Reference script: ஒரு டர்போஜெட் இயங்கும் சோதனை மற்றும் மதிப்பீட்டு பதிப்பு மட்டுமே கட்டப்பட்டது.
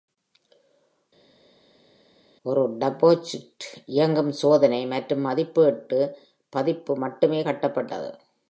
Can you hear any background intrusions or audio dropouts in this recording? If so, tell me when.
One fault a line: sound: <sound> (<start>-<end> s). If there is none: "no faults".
no faults